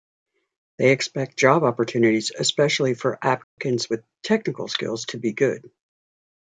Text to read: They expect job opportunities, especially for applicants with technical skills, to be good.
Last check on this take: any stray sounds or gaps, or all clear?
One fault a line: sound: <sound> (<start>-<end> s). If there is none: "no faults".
sound: dropout (3.4-3.6 s)